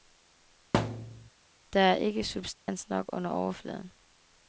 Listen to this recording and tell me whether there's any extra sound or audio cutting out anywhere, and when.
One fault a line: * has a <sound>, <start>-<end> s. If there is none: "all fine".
* has a thud, 0.7-1.3 s
* has a dropout, 2.6-2.7 s